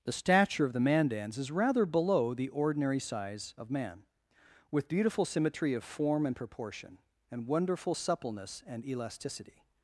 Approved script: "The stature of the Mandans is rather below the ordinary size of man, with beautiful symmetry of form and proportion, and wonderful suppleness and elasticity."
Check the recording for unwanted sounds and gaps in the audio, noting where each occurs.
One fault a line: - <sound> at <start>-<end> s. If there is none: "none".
none